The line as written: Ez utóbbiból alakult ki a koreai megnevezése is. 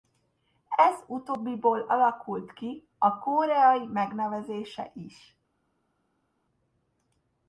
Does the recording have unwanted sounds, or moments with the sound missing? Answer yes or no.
no